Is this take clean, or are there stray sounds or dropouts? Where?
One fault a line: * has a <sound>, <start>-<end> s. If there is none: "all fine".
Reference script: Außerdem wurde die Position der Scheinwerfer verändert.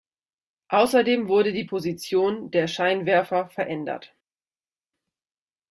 all fine